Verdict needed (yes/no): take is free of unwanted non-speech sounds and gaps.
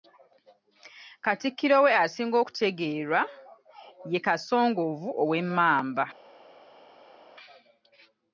yes